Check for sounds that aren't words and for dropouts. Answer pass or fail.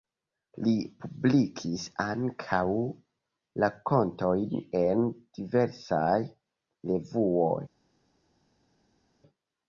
pass